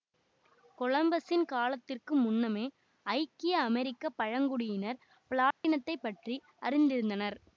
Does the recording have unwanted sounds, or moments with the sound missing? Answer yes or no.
yes